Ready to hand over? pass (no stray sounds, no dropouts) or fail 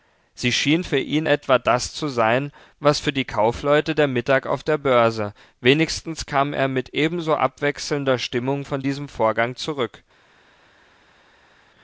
pass